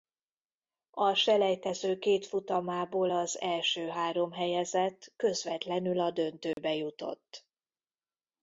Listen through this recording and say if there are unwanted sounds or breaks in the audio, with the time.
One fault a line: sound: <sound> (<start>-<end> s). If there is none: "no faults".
sound: dropout (6.5-6.6 s)